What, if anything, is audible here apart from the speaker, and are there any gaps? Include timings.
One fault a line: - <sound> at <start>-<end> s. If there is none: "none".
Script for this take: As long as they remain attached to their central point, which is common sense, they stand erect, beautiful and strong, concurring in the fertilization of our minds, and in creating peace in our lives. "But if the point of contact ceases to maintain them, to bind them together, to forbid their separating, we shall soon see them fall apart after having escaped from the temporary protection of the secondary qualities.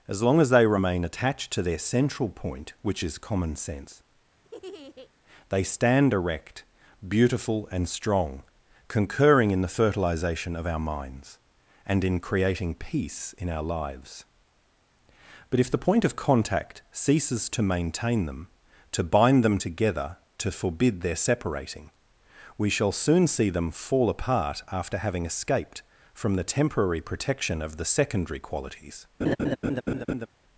- laugh at 4.4-5.1 s
- laugh at 29.2-30.3 s